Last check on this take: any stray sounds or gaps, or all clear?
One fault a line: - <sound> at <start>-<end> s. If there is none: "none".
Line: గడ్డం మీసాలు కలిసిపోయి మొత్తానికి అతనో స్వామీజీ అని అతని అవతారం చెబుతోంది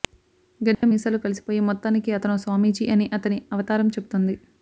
- dropout at 0.7-0.8 s